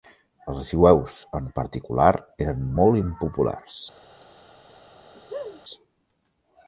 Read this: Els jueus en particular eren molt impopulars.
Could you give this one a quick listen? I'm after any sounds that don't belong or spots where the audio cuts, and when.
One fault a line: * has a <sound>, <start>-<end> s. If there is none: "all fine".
* has a laugh, 5.1-5.6 s